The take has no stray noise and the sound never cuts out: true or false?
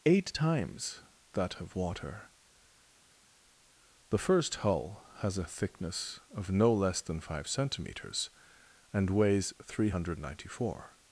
true